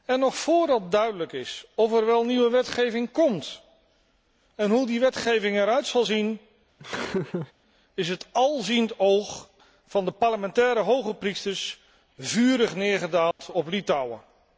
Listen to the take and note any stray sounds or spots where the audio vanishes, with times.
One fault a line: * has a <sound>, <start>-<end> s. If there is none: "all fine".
* has a laugh, 6.8-7.5 s
* has a dropout, 13.3-13.4 s